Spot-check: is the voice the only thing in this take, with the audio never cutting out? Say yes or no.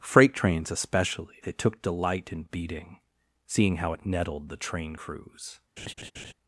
no